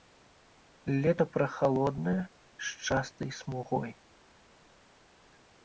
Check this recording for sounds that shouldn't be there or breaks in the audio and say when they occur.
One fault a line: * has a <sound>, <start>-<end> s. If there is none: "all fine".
all fine